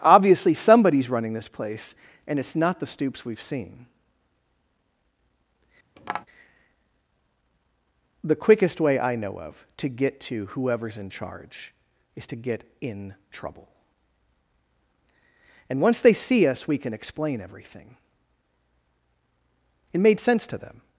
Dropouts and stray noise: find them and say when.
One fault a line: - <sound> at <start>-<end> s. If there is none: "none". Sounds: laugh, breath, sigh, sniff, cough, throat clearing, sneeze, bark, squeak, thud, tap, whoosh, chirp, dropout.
- tap at 6.0-6.3 s